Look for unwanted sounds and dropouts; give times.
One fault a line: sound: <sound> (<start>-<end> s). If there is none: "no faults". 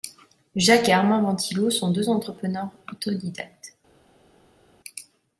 no faults